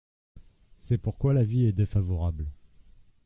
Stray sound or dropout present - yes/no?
no